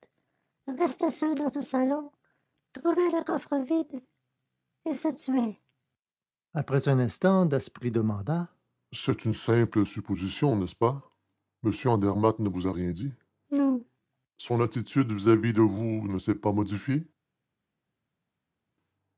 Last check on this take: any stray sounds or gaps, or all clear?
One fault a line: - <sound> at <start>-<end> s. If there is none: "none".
none